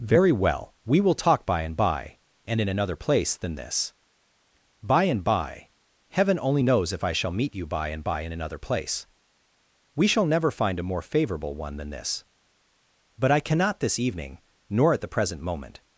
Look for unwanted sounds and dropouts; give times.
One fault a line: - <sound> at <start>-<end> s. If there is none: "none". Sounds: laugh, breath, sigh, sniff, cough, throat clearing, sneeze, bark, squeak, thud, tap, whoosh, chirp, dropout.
none